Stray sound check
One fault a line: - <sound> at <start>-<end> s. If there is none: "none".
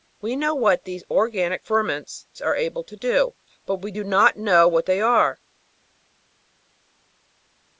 none